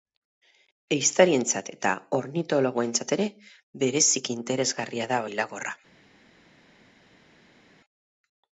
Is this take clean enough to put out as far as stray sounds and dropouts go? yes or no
yes